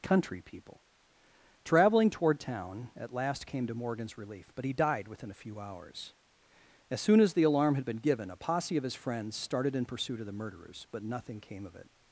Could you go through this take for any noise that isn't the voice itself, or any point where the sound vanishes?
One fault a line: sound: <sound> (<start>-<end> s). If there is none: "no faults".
no faults